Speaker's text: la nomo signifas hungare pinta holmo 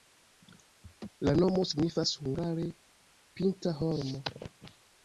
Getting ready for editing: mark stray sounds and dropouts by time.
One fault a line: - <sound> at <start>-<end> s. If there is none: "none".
- laugh at 0.8-1.1 s